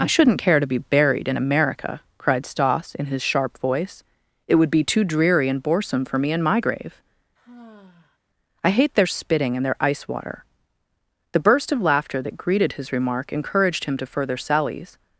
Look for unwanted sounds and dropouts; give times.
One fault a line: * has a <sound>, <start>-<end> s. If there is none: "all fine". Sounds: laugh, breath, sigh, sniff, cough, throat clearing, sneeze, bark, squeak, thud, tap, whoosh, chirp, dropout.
* has a sigh, 7.4-8.2 s